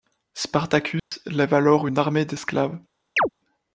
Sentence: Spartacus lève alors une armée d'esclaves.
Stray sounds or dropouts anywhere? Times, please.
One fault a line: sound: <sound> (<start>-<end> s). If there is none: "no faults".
sound: dropout (1.0-1.1 s)
sound: chirp (3.2-3.3 s)